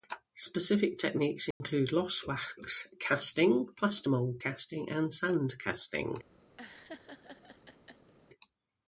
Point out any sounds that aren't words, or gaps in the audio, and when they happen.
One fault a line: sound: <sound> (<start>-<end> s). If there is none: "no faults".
sound: dropout (1.5-1.6 s)
sound: laugh (6.6-8.1 s)